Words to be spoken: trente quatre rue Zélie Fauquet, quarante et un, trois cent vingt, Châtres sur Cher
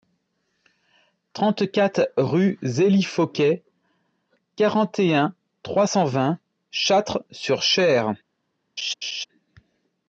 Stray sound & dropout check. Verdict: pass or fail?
fail